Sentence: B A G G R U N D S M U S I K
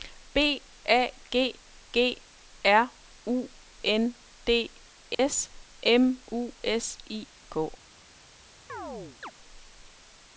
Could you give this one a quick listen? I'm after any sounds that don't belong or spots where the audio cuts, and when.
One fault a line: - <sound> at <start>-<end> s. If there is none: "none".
- dropout at 5.1-5.2 s
- chirp at 8.7-9.3 s